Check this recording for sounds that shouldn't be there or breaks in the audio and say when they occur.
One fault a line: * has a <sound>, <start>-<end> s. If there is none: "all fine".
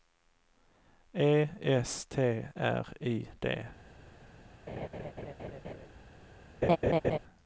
* has a laugh, 4.7-5.9 s
* has a laugh, 6.6-7.2 s